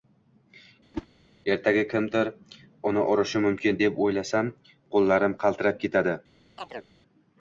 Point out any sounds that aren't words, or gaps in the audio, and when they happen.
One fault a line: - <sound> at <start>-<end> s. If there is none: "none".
- whoosh at 0.9-1.1 s
- chirp at 6.6-6.9 s